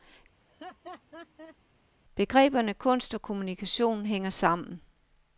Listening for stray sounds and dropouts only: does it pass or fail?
fail